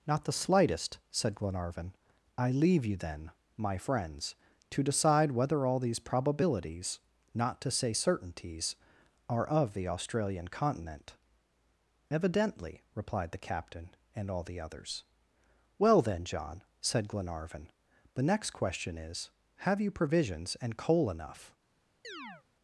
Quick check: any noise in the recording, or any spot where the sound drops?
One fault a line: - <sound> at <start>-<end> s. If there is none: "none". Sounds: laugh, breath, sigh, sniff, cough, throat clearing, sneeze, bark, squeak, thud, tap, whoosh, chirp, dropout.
- chirp at 22.0-22.4 s